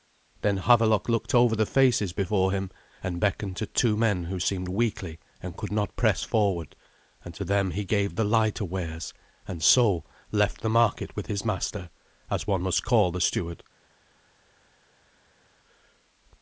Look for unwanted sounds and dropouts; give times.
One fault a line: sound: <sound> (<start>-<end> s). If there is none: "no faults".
no faults